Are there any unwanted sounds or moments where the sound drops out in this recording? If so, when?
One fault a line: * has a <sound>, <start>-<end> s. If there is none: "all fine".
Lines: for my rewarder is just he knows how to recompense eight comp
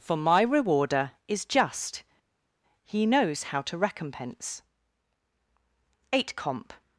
all fine